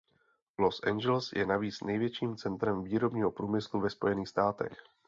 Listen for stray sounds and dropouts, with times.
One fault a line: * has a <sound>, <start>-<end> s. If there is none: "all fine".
all fine